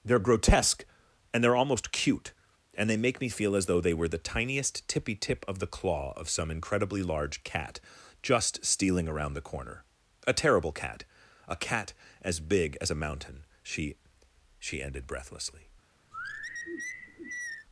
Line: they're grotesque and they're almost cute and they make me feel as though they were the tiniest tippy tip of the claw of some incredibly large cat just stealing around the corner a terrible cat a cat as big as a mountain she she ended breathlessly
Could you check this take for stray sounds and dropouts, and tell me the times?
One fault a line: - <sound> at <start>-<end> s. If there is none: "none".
- sigh at 16.1-17.7 s